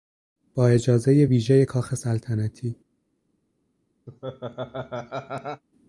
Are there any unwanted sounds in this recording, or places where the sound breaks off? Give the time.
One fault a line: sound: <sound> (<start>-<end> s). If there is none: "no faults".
sound: laugh (4.1-5.6 s)